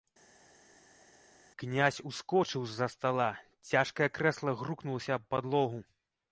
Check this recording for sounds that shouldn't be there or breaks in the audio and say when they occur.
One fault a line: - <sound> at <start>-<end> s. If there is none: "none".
none